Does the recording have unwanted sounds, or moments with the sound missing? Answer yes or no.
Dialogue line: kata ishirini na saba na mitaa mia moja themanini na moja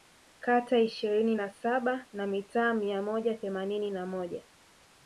no